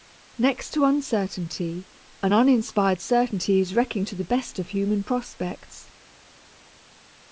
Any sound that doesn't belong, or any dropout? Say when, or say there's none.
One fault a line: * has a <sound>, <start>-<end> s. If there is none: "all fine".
all fine